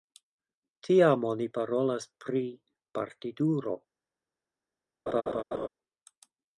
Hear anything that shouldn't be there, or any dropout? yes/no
yes